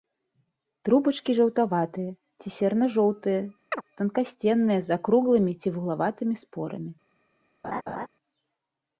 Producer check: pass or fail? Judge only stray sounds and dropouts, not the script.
fail